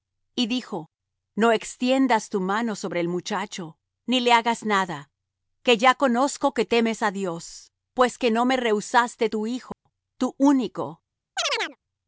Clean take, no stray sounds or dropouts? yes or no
no